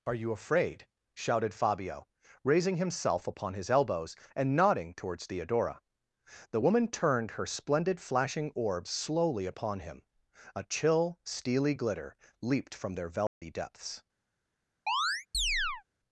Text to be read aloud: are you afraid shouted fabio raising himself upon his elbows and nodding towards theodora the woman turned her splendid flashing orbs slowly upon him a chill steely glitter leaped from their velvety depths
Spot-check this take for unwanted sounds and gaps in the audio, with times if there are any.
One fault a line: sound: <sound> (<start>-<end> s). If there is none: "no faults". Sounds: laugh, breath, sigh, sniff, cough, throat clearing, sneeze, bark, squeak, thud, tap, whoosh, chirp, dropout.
sound: dropout (13.3-13.4 s)
sound: chirp (14.9-15.8 s)